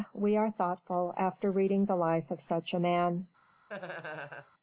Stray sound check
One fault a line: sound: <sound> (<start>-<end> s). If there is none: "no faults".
sound: laugh (3.7-4.5 s)